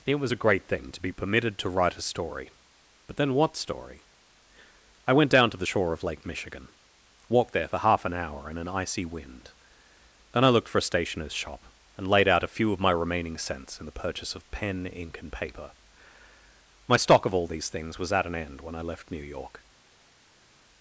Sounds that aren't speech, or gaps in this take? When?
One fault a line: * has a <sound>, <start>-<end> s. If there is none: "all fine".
all fine